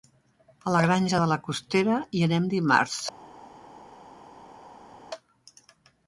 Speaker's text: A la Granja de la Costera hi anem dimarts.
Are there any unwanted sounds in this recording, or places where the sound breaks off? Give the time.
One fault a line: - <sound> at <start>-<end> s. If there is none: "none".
none